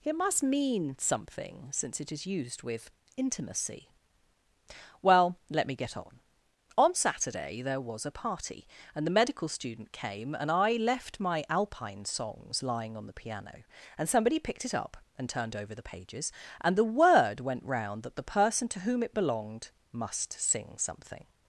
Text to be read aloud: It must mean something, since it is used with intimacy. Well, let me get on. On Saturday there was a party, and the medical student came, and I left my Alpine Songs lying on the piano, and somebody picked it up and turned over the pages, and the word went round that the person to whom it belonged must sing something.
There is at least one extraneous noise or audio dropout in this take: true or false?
false